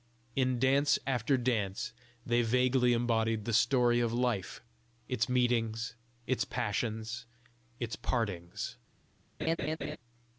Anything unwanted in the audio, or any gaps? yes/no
yes